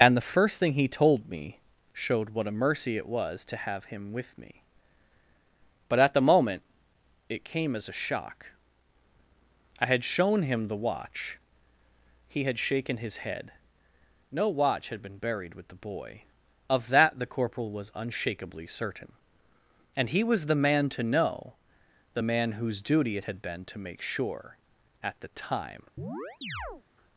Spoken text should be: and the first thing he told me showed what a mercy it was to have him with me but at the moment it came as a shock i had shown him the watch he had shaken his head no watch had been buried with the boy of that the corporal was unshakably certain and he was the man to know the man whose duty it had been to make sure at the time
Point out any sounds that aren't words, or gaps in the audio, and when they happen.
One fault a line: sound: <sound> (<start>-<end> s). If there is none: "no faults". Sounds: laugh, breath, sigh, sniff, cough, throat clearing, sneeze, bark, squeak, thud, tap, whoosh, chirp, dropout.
sound: chirp (26.0-26.8 s)